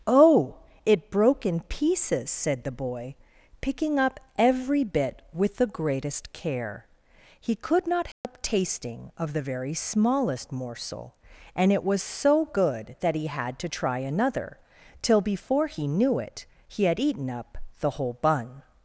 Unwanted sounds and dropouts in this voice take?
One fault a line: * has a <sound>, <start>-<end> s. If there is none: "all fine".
* has a dropout, 8.1-8.2 s